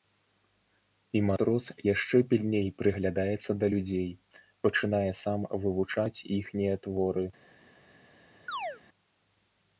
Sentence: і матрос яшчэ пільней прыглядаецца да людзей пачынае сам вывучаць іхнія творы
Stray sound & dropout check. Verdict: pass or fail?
fail